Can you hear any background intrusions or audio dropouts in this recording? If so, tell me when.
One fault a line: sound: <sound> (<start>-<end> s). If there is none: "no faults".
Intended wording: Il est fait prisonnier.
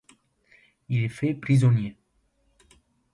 no faults